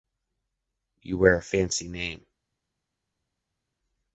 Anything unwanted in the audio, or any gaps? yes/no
no